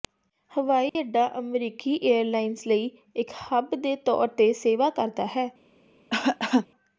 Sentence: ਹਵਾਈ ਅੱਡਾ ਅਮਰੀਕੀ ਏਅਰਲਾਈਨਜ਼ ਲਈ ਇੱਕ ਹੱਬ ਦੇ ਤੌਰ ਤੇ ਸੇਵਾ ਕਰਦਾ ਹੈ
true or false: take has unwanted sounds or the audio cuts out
true